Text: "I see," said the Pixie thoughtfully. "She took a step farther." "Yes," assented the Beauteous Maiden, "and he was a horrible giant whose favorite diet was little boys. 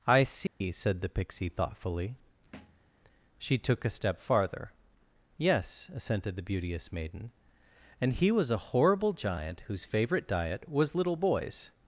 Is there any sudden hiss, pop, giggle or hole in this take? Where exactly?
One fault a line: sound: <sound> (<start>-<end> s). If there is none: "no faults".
sound: dropout (0.5-0.6 s)
sound: thud (2.5-2.9 s)